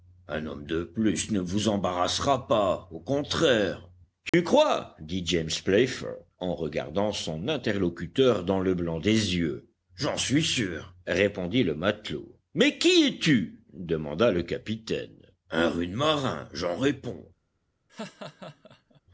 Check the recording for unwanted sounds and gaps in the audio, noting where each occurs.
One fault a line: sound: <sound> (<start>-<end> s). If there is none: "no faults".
sound: dropout (4.3-4.3 s)
sound: laugh (17.9-19.0 s)